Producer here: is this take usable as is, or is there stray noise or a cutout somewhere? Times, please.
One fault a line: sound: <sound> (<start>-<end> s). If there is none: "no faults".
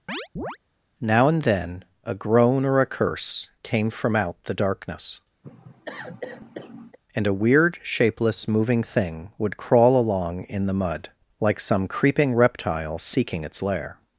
sound: chirp (0.1-0.6 s)
sound: cough (5.4-7.0 s)